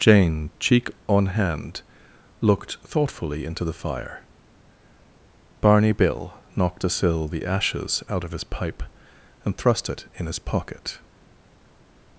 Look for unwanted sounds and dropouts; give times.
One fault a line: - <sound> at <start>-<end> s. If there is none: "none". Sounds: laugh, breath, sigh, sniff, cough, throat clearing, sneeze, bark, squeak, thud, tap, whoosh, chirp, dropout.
none